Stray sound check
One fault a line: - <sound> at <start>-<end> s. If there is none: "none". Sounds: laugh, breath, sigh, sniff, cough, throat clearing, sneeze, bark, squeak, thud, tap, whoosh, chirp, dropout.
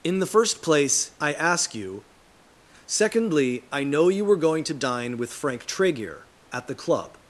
none